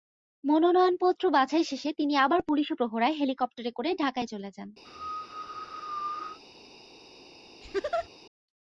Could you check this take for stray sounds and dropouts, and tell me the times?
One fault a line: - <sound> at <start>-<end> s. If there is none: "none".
- cough at 4.8-6.4 s
- laugh at 7.6-8.1 s